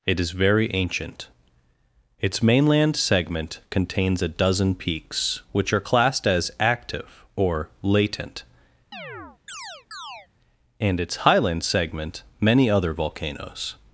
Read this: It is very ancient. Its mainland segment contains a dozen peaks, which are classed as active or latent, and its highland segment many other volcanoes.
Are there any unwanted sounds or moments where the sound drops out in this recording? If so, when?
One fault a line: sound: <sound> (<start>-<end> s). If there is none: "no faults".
sound: chirp (8.9-10.3 s)